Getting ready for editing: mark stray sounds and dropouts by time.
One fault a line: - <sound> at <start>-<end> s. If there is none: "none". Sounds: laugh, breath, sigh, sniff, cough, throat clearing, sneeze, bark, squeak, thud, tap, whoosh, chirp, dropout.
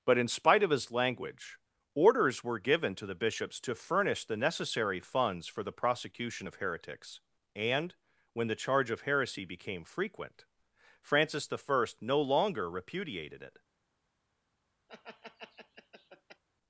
- laugh at 14.9-16.4 s